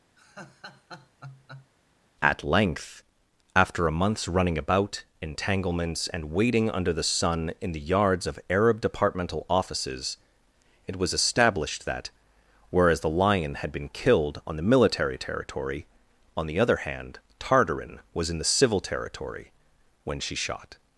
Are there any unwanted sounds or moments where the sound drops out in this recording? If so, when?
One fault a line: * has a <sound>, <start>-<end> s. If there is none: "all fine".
* has a laugh, 0.2-1.7 s